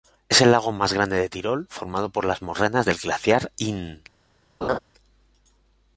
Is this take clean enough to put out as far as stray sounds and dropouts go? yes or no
no